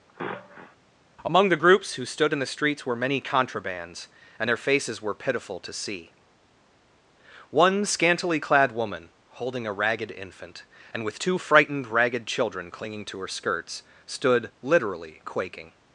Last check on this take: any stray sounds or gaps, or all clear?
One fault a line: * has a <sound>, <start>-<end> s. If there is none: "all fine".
* has a sniff, 0.1-0.8 s